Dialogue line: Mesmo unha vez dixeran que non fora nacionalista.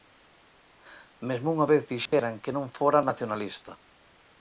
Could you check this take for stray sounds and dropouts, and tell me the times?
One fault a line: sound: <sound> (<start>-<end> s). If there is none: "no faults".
sound: dropout (2.1-2.1 s)